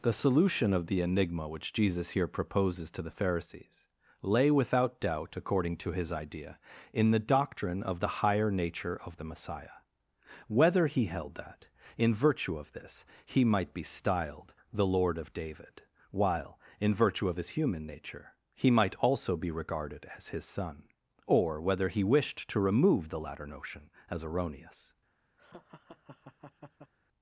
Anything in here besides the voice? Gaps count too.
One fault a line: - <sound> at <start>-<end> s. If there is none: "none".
- laugh at 25.4-26.9 s